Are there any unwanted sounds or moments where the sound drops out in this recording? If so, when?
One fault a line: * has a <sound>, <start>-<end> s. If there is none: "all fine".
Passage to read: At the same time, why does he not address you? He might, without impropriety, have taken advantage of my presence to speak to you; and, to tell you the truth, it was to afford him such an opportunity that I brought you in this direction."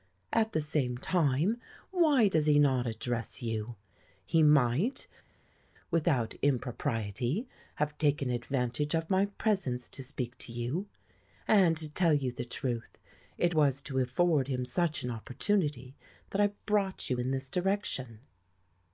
all fine